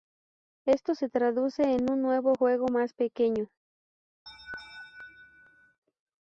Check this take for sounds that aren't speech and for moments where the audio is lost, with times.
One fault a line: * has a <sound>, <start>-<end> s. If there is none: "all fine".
* has a laugh, 4.3-5.8 s